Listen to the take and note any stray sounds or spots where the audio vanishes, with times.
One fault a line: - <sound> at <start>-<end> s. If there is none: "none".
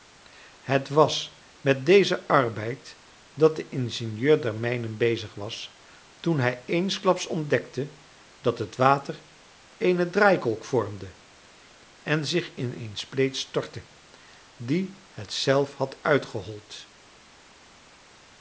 none